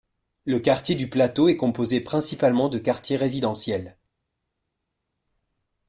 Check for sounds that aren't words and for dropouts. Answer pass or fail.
pass